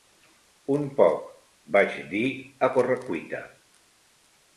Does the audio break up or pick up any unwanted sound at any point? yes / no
no